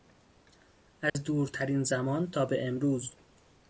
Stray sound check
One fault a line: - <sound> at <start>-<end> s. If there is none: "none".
- dropout at 1.1-1.2 s